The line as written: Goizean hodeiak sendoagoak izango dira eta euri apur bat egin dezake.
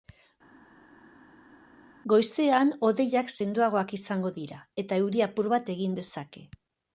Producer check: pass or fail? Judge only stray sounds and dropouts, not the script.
pass